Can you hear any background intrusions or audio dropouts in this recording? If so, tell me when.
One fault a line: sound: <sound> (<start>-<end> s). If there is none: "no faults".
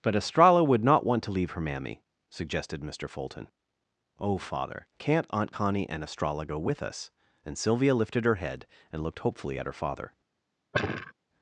sound: sigh (10.7-11.1 s)